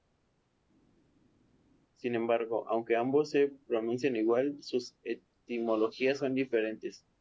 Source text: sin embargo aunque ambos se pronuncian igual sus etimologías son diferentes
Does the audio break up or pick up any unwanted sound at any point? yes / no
no